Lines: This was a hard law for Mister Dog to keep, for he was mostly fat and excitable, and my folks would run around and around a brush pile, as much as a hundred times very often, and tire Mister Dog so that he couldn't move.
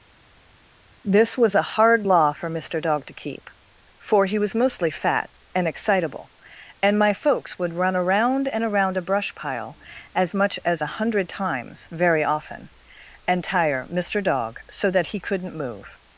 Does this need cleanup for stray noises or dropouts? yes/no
no